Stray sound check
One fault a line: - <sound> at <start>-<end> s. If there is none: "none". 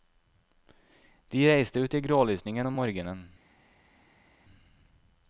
none